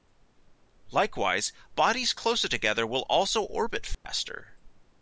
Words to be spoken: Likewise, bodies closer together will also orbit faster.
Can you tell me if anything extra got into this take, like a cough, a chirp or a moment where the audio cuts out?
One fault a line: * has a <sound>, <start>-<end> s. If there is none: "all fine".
* has a dropout, 3.9-4.0 s